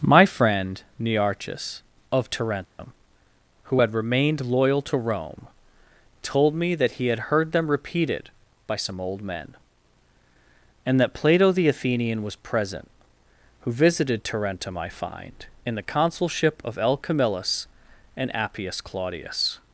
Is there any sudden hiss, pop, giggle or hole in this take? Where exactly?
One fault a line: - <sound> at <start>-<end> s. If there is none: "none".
- dropout at 2.6-2.8 s